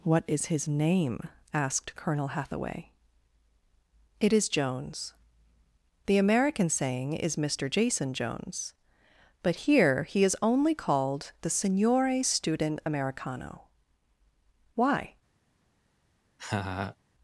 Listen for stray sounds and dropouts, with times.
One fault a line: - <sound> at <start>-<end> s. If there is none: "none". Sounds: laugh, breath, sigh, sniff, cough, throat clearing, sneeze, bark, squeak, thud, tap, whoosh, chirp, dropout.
- laugh at 16.4-17.0 s